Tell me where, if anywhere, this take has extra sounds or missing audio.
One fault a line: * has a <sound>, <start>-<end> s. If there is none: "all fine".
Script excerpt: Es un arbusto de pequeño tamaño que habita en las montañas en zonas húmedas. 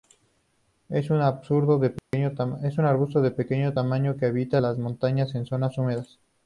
* has a dropout, 2.0-2.1 s